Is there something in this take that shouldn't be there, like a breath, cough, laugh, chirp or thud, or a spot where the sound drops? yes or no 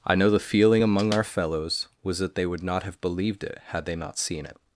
no